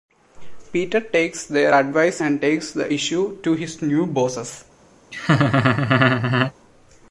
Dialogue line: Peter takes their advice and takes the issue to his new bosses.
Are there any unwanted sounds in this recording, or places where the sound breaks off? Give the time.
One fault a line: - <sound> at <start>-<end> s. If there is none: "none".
- laugh at 5.1-6.5 s